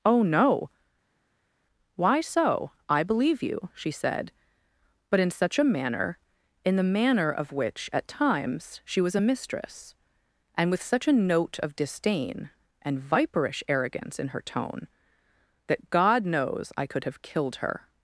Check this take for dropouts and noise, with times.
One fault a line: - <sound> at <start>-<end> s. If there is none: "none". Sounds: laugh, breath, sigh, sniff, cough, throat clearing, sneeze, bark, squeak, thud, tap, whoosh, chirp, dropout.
none